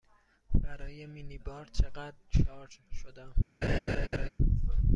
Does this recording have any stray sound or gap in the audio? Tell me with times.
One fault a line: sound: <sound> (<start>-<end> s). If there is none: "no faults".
sound: laugh (3.6-4.3 s)